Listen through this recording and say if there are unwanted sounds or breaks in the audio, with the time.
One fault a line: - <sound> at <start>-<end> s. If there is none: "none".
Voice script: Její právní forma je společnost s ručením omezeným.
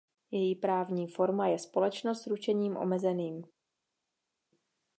none